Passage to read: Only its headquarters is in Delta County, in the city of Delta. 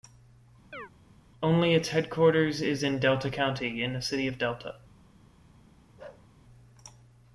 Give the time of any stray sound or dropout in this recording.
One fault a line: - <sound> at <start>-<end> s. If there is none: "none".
- chirp at 0.7-0.9 s
- bark at 6.0-6.3 s